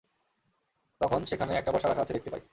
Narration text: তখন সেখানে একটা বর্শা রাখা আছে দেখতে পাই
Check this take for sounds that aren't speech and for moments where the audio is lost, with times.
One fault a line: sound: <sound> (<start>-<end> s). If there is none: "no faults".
no faults